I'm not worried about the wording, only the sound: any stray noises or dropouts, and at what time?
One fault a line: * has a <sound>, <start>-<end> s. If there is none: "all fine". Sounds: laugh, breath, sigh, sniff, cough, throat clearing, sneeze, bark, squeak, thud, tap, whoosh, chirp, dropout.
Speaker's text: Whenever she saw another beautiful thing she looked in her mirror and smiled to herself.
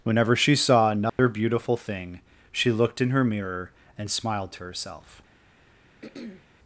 * has a dropout, 1.1-1.2 s
* has a throat clearing, 6.0-6.5 s